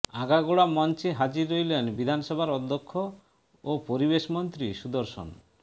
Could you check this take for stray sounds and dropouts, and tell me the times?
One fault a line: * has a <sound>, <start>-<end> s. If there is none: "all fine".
all fine